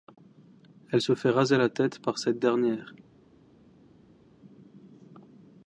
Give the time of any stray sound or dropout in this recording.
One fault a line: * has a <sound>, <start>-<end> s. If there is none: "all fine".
all fine